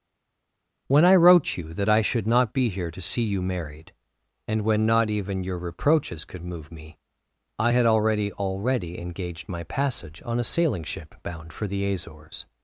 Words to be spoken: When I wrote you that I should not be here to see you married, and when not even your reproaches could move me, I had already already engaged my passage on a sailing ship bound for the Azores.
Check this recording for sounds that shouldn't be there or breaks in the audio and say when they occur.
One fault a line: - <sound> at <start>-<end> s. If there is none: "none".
none